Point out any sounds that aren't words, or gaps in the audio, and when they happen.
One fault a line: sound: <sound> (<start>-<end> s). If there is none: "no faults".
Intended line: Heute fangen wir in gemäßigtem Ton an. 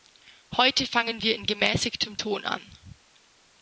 no faults